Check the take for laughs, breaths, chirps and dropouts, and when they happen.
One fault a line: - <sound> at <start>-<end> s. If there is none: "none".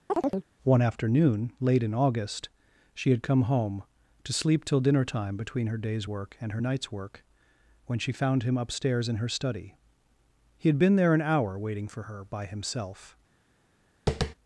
- chirp at 0.1-0.5 s
- tap at 14.1-14.3 s